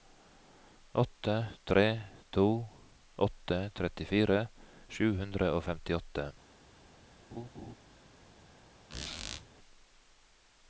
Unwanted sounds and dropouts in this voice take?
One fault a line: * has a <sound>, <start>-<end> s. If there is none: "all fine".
* has a laugh, 7.3-7.7 s
* has a squeak, 8.9-9.5 s